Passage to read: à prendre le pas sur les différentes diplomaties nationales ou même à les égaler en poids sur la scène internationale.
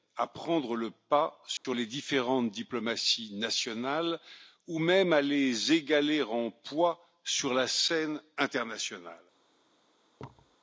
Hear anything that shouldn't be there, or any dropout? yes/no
yes